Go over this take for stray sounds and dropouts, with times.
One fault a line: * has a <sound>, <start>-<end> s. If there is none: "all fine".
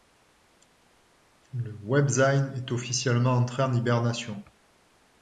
all fine